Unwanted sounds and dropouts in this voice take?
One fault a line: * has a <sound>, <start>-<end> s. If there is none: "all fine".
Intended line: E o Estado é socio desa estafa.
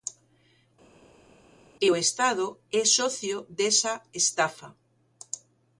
all fine